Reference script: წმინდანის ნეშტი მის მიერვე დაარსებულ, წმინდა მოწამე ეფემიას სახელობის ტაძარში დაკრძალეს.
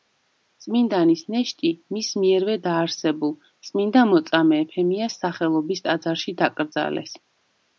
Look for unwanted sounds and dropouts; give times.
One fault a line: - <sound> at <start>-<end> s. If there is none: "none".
none